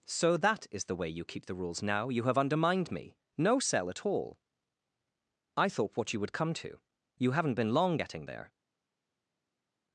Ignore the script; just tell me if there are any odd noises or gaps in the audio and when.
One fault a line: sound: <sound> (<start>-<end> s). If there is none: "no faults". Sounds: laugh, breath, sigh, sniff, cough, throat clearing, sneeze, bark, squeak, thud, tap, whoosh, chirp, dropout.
no faults